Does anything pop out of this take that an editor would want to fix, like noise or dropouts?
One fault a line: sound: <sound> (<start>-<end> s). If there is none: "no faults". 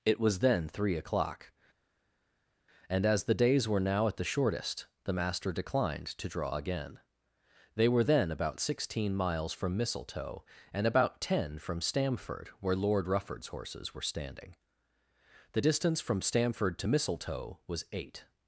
no faults